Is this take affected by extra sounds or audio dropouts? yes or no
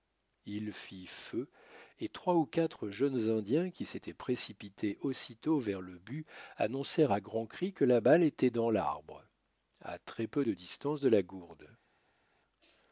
no